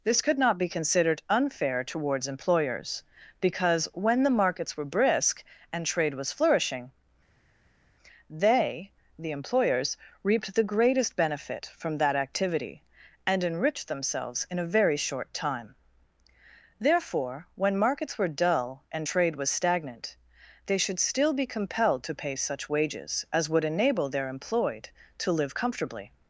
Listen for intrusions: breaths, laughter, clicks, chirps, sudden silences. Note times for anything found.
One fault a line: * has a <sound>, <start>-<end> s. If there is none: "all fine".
all fine